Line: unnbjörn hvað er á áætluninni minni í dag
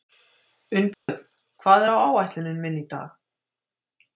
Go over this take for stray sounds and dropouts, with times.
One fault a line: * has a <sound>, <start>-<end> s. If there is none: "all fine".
* has a dropout, 0.9-1.1 s